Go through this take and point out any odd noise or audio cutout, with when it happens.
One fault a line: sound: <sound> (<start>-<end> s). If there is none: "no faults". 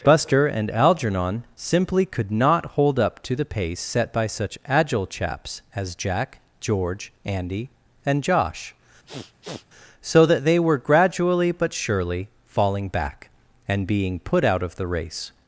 sound: sniff (9.1-9.7 s)